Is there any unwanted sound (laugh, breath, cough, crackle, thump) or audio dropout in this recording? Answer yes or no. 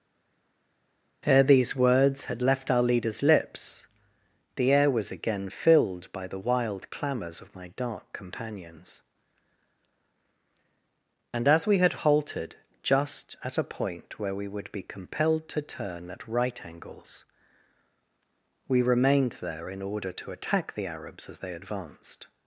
no